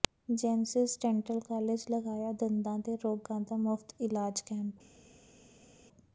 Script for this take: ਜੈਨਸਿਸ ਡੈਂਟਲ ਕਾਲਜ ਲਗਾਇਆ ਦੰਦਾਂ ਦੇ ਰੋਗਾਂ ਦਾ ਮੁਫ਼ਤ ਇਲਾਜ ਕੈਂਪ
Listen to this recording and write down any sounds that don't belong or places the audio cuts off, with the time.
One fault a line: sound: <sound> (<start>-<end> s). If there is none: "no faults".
no faults